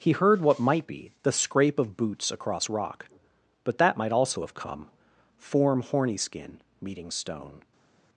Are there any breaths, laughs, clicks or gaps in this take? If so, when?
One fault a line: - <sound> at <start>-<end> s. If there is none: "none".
none